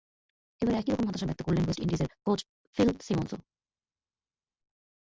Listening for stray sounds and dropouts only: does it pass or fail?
pass